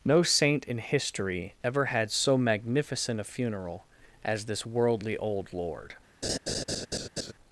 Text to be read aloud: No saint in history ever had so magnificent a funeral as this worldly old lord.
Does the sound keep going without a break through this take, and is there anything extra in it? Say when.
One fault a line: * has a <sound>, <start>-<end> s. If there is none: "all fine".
* has a laugh, 6.2-7.3 s